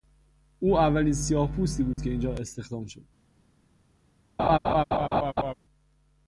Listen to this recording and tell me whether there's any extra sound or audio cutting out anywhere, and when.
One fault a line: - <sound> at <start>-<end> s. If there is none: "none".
- dropout at 1.9-2.0 s
- laugh at 4.4-5.5 s